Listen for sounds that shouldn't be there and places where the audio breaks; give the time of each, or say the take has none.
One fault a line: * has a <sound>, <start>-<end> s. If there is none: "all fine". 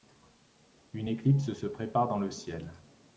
all fine